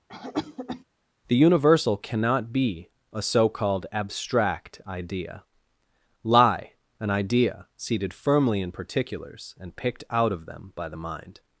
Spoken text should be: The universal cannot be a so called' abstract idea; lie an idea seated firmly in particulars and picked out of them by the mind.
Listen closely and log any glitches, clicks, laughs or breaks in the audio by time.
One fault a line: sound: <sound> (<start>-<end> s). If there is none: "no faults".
sound: cough (0.1-0.8 s)